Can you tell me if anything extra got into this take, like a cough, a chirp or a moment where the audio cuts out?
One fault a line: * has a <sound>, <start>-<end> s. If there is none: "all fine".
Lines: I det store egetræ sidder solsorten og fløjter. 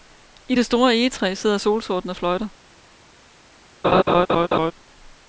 * has a laugh, 3.8-4.7 s